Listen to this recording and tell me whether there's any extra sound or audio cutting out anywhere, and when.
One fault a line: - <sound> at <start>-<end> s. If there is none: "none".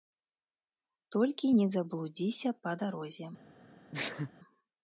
- sneeze at 3.9-4.3 s